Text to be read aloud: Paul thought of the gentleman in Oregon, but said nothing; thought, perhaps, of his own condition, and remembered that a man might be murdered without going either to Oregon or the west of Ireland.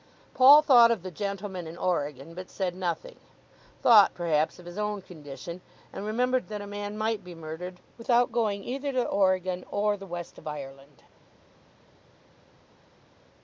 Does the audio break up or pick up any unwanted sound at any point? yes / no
no